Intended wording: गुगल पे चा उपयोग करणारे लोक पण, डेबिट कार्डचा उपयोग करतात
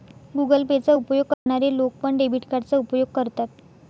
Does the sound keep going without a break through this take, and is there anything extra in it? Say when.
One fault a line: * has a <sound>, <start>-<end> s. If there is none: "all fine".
* has a dropout, 1.3-1.5 s